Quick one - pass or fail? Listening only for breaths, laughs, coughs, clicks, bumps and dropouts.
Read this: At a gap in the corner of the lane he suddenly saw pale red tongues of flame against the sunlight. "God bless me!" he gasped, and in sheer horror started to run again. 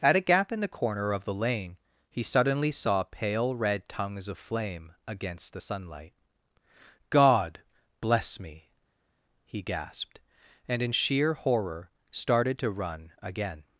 pass